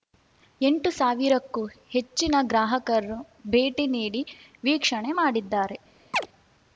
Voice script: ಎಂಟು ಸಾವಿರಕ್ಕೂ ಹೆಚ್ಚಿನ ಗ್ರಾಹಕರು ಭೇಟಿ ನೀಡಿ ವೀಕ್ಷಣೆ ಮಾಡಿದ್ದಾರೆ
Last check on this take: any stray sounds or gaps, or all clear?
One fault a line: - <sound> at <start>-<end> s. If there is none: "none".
- chirp at 6.1-6.3 s